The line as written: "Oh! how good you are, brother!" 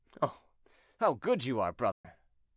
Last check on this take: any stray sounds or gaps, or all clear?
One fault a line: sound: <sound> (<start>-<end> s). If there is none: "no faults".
sound: dropout (1.9-2.0 s)